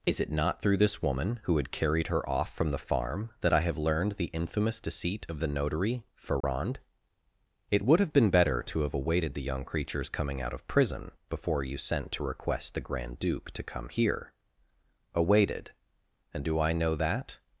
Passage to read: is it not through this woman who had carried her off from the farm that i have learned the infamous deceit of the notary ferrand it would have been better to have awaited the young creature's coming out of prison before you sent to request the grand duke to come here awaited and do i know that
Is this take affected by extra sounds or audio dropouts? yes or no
yes